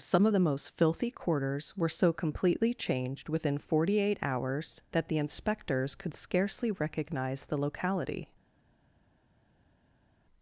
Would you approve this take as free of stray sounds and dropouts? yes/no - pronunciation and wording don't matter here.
yes